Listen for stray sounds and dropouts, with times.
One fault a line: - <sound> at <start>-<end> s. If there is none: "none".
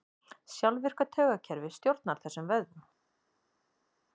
none